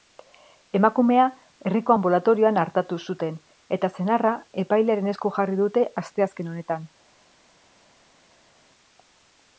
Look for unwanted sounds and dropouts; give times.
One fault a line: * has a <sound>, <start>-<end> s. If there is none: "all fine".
all fine